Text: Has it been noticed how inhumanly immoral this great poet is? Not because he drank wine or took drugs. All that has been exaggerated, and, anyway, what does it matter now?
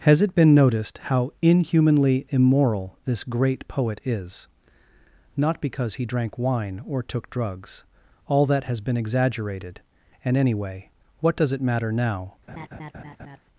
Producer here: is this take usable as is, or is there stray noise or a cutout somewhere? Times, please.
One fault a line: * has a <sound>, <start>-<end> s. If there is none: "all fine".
* has a laugh, 12.5-13.4 s